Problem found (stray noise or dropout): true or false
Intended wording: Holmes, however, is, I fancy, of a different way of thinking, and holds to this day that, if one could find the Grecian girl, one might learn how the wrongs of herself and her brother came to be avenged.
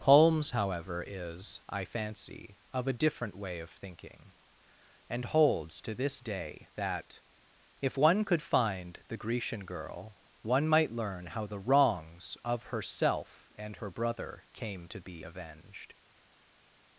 false